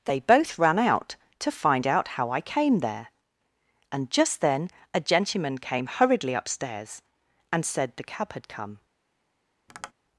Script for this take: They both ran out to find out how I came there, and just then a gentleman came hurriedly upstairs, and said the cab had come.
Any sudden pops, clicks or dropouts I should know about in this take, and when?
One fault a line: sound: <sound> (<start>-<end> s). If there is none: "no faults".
sound: tap (9.7-9.9 s)